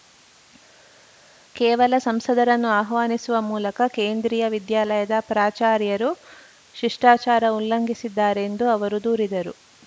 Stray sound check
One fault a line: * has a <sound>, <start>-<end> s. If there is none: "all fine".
all fine